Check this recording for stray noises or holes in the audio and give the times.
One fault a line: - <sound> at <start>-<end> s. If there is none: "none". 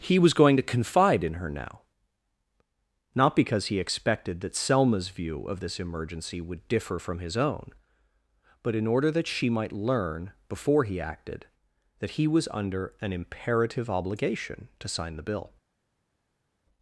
none